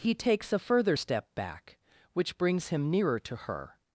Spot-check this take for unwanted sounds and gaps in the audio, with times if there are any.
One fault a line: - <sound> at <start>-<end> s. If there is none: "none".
none